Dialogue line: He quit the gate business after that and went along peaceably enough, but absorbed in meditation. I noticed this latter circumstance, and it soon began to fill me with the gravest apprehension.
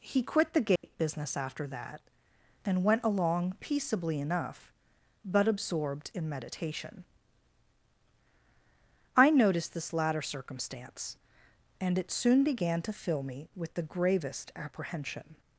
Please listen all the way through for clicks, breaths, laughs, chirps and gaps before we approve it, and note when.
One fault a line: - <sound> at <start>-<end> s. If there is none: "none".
- dropout at 0.8-0.8 s